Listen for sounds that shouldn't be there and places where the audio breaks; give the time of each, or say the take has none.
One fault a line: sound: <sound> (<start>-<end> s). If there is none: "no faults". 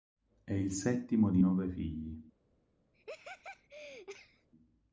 sound: laugh (2.9-4.5 s)